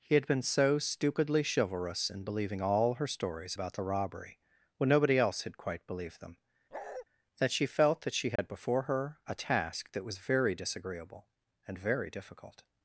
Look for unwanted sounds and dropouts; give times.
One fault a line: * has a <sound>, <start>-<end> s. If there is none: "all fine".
* has a bark, 6.7-7.1 s
* has a dropout, 8.4-8.4 s